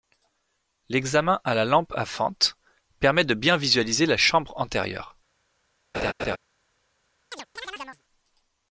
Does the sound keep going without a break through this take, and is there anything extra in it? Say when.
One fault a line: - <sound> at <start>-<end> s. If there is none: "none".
- laugh at 5.9-6.4 s
- chirp at 7.3-8.0 s